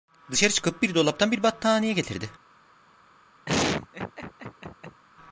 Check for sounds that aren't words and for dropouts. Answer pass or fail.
fail